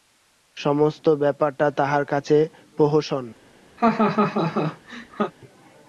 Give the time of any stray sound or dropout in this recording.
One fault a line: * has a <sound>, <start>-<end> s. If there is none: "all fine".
* has a laugh, 3.8-5.3 s